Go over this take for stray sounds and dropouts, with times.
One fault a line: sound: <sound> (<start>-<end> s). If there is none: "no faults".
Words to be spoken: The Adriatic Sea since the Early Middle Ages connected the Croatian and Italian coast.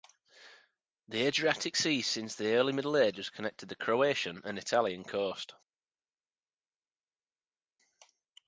no faults